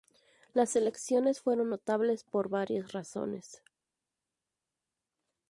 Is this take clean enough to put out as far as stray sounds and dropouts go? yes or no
yes